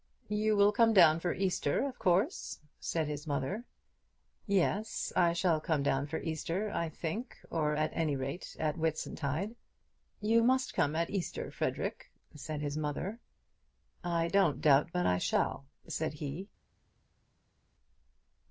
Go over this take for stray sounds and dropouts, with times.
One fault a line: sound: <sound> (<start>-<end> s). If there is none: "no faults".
no faults